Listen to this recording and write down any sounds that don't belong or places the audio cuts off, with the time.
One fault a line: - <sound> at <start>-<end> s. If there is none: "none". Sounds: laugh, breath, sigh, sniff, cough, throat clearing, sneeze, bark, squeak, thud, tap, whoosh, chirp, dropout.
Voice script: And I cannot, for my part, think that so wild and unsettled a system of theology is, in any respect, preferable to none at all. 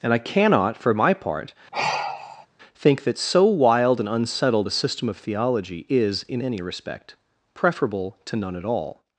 - sigh at 1.7-2.5 s